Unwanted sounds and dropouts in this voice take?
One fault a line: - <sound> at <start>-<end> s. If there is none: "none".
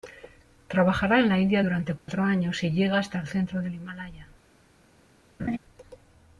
- dropout at 2.0-2.1 s
- laugh at 5.4-5.6 s